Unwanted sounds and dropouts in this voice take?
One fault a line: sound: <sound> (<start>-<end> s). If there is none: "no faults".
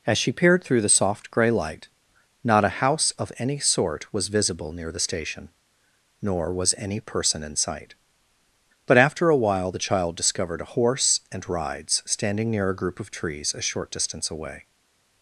no faults